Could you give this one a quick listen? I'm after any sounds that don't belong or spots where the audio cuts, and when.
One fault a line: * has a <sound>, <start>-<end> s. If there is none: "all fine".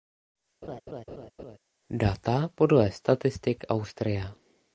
* has a laugh, 0.6-1.6 s